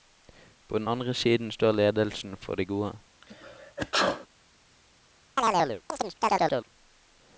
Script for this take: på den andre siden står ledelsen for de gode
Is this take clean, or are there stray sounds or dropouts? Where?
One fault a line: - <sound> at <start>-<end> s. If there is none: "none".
- sneeze at 3.2-4.3 s
- chirp at 5.4-6.7 s